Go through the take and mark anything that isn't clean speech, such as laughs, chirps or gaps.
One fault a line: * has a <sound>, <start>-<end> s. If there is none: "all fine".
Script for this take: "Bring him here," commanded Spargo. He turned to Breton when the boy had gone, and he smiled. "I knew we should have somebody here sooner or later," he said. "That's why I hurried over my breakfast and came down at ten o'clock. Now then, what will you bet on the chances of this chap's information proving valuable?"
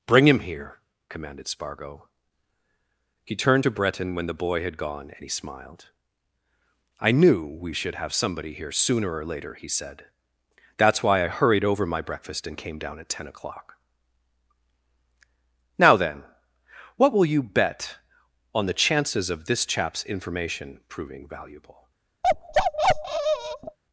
* has a bark, 22.2-23.8 s